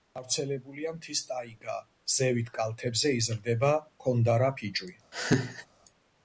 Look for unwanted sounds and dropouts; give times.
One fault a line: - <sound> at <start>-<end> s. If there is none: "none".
- laugh at 5.1-5.7 s